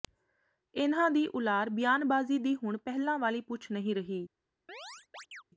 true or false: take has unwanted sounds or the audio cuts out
true